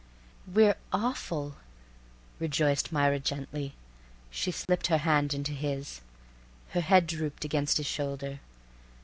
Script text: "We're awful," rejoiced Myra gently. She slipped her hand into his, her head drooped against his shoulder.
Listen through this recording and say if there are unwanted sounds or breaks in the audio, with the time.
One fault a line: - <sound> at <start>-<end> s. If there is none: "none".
- dropout at 4.7-4.7 s